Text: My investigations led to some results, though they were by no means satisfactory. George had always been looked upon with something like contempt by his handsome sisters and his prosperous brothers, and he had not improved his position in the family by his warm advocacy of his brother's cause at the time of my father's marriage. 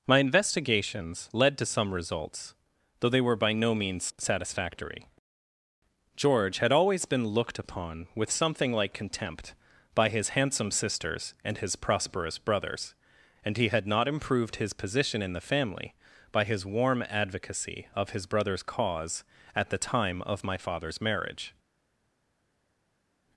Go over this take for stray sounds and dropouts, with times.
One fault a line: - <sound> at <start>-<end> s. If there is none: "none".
none